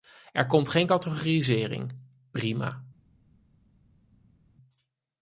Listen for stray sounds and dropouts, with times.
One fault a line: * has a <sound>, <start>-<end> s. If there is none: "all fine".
all fine